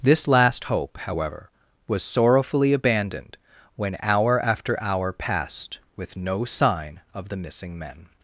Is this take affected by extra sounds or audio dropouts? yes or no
no